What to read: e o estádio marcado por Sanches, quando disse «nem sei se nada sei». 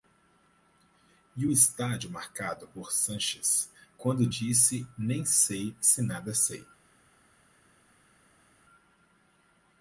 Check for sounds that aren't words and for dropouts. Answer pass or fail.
pass